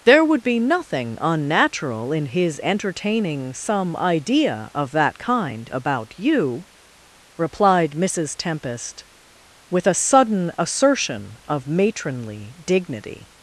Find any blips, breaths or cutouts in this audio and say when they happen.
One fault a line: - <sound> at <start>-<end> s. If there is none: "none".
none